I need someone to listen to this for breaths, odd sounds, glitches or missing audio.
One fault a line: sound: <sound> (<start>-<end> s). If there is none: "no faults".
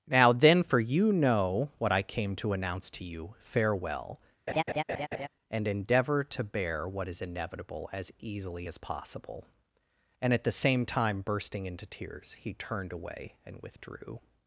sound: laugh (4.5-5.3 s)